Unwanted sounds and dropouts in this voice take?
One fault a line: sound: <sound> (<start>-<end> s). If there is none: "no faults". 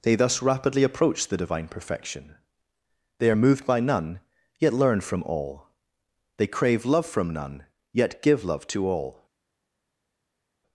no faults